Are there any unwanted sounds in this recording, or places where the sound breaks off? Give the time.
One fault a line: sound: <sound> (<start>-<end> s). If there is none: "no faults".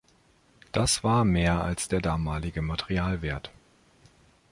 no faults